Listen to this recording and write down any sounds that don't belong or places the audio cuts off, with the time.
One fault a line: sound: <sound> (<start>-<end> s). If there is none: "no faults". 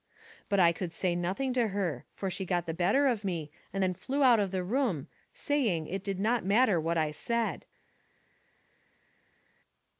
no faults